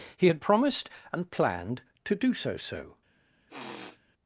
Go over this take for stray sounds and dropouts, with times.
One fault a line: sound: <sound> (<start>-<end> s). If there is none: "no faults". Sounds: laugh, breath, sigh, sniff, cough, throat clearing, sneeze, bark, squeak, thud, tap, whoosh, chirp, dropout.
sound: sniff (3.5-4.0 s)